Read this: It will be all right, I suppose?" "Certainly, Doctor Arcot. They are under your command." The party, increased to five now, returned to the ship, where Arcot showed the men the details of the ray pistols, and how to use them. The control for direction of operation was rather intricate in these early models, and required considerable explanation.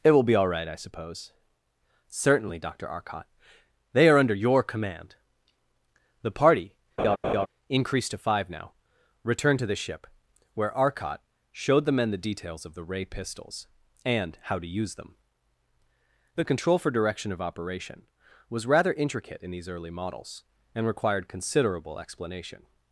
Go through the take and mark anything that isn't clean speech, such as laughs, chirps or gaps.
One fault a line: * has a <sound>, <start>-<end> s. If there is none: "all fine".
* has a laugh, 7.0-7.5 s